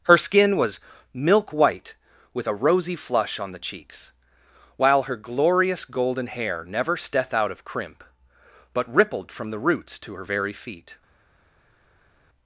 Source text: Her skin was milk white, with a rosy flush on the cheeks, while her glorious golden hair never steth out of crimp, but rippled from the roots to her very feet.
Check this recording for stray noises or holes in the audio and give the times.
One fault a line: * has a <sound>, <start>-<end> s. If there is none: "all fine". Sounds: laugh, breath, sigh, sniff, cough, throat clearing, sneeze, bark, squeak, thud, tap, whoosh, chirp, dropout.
all fine